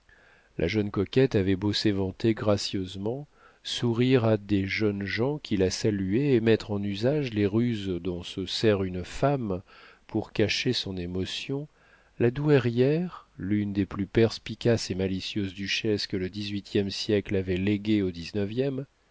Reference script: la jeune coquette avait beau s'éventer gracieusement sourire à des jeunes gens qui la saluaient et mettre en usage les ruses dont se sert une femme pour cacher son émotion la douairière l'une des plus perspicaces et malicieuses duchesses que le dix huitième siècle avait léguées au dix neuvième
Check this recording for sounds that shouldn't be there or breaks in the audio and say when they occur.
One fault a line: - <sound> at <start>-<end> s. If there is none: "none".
none